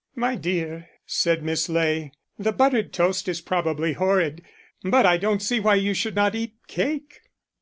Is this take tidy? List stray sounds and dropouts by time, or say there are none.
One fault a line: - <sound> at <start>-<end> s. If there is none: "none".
none